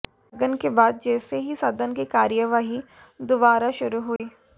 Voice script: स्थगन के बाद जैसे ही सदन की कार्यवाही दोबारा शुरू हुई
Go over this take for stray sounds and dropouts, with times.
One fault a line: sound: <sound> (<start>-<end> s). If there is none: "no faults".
sound: dropout (4.2-4.2 s)